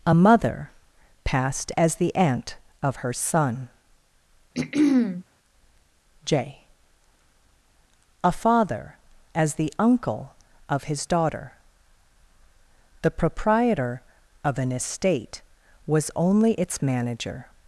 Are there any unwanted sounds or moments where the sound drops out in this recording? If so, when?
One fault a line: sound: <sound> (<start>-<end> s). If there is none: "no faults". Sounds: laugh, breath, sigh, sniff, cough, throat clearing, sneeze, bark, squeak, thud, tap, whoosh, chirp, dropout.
sound: throat clearing (4.5-5.2 s)